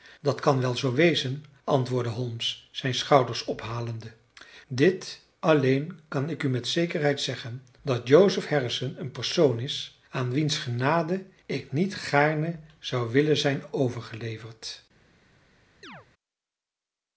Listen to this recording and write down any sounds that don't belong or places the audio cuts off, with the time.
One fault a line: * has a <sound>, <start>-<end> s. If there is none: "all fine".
* has a chirp, 15.8-16.1 s